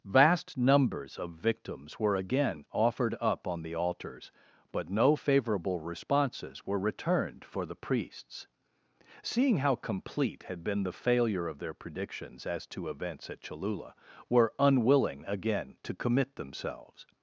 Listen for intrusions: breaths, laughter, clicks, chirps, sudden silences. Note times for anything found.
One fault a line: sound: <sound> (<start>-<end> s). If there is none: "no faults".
no faults